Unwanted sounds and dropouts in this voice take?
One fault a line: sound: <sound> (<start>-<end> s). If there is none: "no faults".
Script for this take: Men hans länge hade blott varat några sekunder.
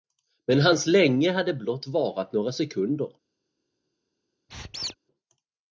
sound: squeak (4.5-4.9 s)